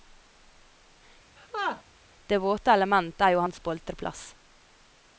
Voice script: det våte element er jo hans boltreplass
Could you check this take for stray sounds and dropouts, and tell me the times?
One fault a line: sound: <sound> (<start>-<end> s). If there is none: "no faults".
sound: laugh (1.4-1.8 s)